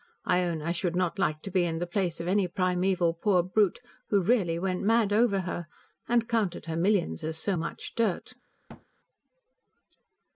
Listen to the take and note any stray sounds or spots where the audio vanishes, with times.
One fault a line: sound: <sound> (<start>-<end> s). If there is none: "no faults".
sound: thud (8.7-8.9 s)